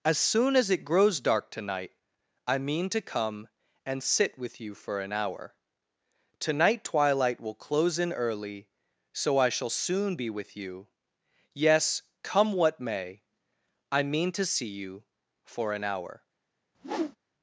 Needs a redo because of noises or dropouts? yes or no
yes